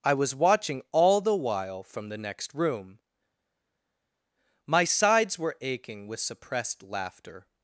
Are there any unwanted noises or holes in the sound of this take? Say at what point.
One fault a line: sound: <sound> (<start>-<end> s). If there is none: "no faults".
no faults